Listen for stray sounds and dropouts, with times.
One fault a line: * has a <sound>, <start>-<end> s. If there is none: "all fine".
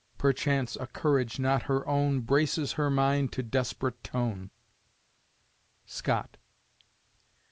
all fine